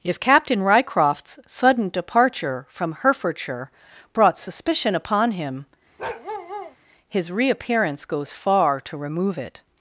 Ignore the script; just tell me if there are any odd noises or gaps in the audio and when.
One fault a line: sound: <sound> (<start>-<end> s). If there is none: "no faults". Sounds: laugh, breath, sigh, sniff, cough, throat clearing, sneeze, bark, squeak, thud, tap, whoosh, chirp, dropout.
sound: bark (6.0-6.8 s)